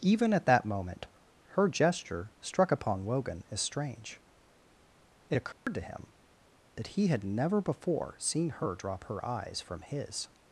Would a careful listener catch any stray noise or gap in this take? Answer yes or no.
yes